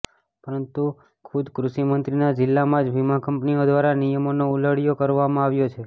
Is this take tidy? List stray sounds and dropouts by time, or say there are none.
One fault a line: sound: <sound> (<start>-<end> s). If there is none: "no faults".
no faults